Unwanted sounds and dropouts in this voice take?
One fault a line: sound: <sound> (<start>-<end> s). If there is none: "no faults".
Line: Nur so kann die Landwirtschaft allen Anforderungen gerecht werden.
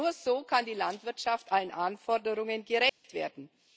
sound: dropout (2.9-3.0 s)